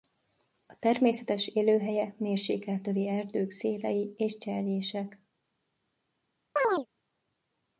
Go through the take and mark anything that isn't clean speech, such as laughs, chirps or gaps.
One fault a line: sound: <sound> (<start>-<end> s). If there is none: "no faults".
sound: chirp (6.6-6.9 s)